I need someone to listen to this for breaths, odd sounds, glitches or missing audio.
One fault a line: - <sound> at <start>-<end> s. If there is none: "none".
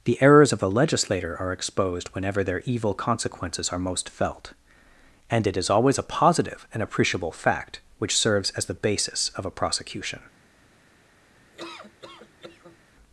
- laugh at 11.5-12.8 s